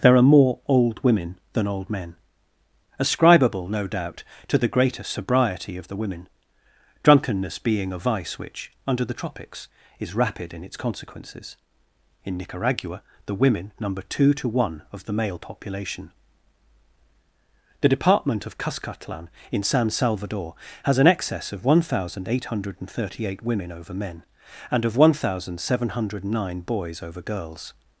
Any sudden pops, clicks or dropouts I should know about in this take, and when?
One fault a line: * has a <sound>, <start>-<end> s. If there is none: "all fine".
all fine